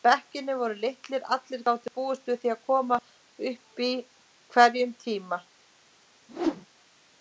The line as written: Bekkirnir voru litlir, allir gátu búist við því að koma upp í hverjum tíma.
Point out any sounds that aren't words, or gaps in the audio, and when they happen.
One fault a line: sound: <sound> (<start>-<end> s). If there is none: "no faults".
sound: whoosh (6.3-6.7 s)